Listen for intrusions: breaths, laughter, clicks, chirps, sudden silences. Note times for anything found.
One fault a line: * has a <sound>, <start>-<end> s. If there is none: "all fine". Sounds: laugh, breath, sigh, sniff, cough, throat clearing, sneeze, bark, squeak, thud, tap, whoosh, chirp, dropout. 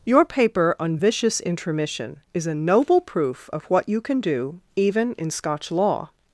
all fine